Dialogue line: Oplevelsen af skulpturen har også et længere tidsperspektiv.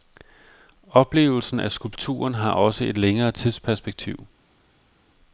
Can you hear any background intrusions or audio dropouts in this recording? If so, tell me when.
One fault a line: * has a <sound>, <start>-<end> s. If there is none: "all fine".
all fine